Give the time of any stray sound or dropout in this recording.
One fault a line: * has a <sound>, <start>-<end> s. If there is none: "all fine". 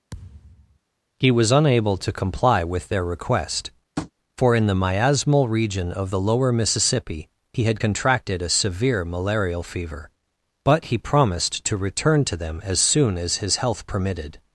* has a thud, 0.1-0.8 s
* has a tap, 4.0-4.1 s